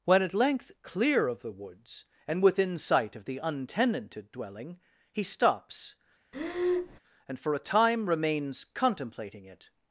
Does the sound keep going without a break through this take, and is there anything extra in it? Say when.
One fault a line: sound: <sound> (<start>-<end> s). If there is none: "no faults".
sound: breath (6.3-7.0 s)